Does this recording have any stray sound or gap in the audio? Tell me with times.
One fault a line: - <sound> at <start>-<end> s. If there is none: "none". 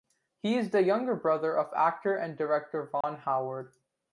- dropout at 3.0-3.0 s